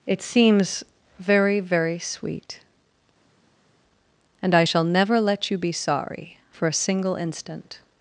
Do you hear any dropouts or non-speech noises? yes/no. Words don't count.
no